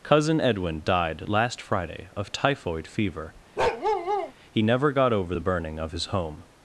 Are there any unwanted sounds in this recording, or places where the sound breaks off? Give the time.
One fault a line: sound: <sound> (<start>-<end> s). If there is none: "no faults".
sound: bark (3.6-4.3 s)